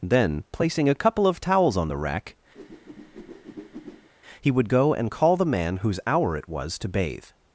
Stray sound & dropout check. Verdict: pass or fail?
fail